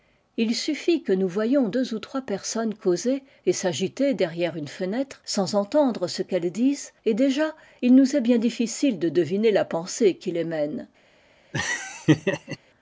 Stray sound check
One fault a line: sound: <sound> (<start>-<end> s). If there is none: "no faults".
sound: laugh (11.5-12.6 s)